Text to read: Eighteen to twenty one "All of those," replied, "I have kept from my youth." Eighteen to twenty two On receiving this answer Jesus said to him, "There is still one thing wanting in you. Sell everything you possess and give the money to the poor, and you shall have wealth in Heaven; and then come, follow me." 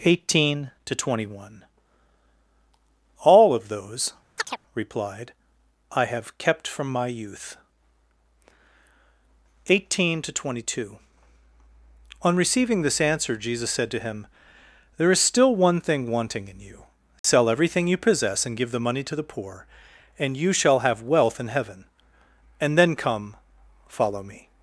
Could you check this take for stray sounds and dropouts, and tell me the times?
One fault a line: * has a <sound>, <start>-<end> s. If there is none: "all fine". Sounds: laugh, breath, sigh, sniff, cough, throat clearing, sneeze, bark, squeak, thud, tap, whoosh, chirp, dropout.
* has a chirp, 4.4-4.6 s
* has a dropout, 17.2-17.2 s